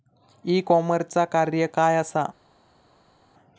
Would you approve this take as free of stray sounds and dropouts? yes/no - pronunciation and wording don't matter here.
yes